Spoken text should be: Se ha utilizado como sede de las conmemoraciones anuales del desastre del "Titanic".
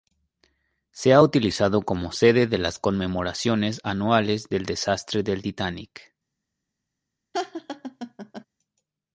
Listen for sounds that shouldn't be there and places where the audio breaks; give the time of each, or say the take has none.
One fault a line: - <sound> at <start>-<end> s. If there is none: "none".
- laugh at 7.3-8.4 s